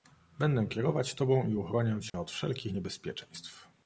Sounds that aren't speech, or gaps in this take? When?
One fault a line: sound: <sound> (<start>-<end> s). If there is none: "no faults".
sound: dropout (2.1-2.1 s)